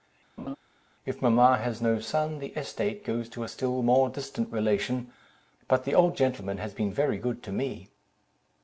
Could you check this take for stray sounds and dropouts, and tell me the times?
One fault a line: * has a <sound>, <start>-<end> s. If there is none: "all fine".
* has a laugh, 0.4-0.6 s